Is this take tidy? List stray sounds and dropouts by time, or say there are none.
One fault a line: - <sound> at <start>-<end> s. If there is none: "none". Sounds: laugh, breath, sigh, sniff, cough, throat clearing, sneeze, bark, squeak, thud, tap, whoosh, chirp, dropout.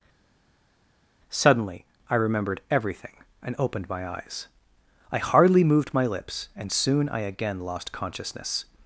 none